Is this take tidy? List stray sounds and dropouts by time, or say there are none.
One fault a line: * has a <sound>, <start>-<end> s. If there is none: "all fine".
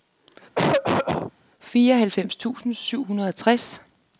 * has a cough, 0.6-1.3 s